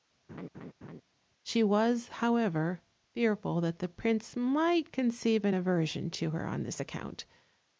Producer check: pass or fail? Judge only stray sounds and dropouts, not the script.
fail